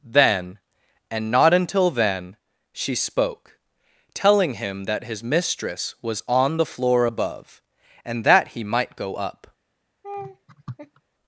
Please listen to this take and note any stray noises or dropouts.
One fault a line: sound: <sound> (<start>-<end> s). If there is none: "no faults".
sound: laugh (10.0-11.0 s)